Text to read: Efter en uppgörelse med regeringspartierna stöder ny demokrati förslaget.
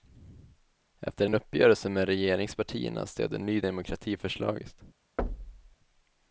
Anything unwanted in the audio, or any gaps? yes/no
yes